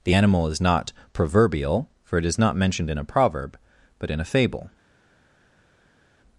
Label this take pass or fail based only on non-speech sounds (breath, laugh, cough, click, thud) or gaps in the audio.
pass